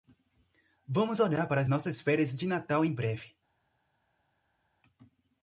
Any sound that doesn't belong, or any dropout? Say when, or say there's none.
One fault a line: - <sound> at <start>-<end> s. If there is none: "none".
none